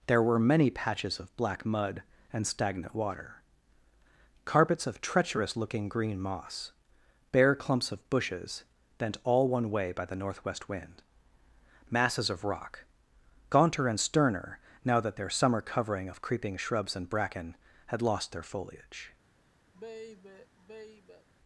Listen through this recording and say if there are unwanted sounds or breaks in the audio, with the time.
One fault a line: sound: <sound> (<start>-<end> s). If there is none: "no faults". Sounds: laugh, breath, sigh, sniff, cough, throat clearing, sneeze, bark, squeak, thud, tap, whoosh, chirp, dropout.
sound: sigh (19.7-21.3 s)